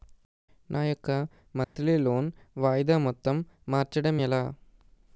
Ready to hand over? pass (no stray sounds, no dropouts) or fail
fail